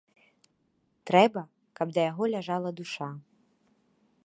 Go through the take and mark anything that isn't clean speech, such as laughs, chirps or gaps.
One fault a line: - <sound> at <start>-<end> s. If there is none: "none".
none